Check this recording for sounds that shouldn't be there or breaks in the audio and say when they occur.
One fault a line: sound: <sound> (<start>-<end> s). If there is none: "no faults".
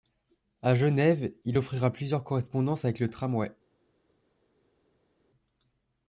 no faults